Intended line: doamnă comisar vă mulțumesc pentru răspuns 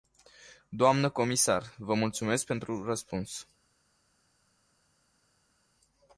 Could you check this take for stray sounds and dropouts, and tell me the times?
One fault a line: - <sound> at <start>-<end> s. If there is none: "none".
none